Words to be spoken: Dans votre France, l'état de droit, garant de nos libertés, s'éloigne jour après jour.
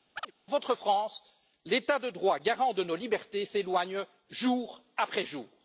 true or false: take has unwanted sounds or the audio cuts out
true